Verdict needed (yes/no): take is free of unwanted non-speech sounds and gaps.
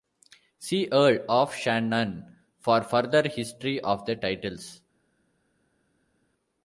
yes